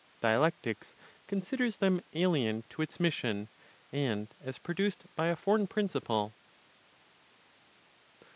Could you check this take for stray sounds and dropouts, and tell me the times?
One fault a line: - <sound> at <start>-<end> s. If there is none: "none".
none